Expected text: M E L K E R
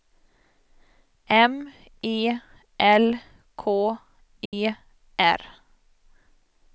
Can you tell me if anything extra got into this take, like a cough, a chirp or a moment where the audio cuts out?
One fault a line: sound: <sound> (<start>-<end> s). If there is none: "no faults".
sound: dropout (4.5-4.5 s)